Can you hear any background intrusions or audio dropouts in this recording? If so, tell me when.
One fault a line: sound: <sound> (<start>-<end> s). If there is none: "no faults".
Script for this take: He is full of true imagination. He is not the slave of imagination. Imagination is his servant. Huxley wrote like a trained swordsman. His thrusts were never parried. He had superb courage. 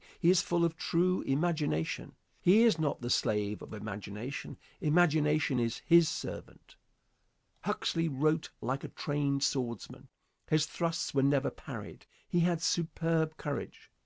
no faults